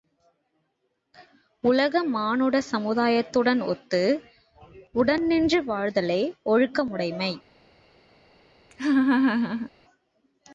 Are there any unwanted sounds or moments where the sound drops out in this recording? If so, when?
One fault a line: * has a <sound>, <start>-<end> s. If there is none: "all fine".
* has a laugh, 8.7-9.7 s